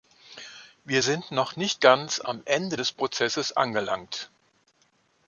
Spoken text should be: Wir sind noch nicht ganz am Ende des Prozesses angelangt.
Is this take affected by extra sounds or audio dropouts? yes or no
no